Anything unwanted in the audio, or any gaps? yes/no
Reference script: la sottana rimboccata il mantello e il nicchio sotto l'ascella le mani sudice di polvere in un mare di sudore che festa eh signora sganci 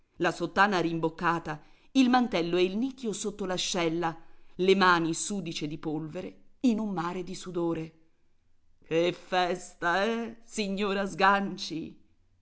no